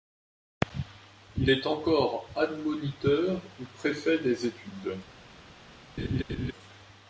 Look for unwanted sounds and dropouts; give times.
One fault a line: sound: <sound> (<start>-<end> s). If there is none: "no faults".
sound: laugh (6.0-6.5 s)